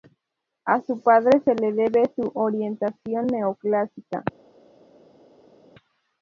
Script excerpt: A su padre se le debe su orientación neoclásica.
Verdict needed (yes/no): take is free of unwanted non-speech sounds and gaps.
yes